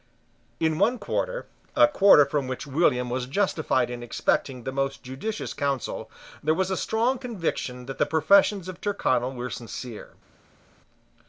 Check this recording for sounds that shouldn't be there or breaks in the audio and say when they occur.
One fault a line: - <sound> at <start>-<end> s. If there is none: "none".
none